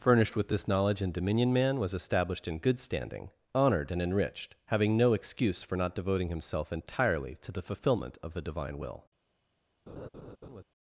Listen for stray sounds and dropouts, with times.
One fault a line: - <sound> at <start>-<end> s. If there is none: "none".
- laugh at 9.9-10.6 s